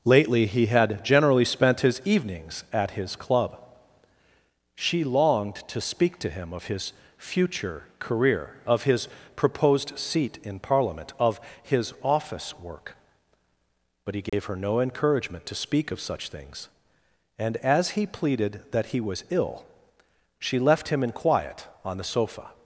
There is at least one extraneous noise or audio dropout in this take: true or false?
true